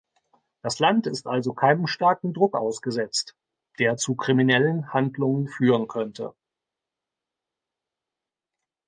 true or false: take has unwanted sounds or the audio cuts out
false